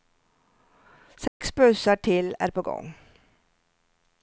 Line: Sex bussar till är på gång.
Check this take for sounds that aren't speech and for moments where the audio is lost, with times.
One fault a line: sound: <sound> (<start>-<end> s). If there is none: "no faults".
sound: dropout (1.3-1.4 s)